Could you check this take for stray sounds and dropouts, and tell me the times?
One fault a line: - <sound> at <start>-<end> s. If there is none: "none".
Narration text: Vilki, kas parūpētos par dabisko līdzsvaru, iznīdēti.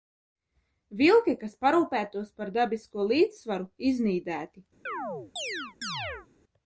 - chirp at 4.9-6.3 s